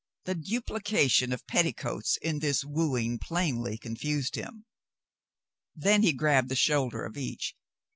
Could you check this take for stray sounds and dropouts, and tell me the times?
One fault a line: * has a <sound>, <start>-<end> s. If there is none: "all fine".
all fine